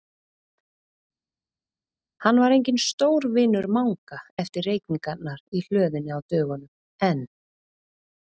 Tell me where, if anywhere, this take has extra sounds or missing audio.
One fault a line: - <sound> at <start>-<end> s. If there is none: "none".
none